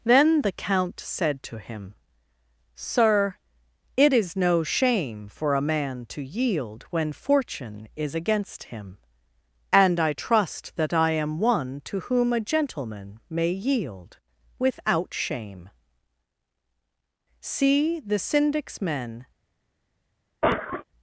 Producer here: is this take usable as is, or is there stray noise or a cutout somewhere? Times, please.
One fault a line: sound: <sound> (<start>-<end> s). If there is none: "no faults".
sound: cough (20.4-20.8 s)